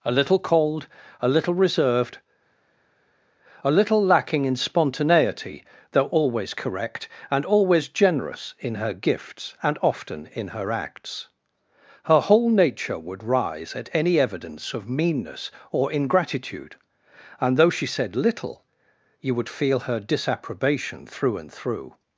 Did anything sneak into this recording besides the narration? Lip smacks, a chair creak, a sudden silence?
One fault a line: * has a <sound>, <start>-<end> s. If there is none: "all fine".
all fine